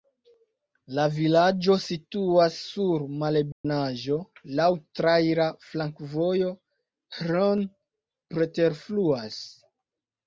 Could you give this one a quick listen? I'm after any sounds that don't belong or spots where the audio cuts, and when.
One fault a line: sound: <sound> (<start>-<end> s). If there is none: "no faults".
sound: dropout (3.5-3.6 s)